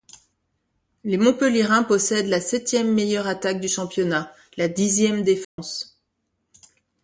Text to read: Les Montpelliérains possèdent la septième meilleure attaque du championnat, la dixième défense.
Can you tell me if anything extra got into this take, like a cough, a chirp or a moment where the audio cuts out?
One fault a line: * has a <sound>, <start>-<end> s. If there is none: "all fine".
* has a dropout, 5.4-5.6 s